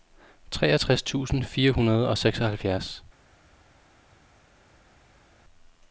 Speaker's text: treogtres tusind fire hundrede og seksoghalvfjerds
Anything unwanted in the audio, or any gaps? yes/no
no